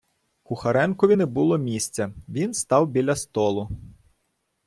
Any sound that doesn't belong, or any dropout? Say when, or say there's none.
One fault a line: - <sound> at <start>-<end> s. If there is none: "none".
none